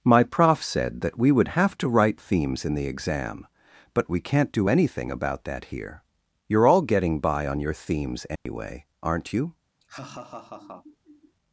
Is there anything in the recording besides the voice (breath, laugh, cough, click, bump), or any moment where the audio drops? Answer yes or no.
yes